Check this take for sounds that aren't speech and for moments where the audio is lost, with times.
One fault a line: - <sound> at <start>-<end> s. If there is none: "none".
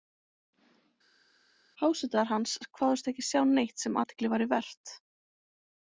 none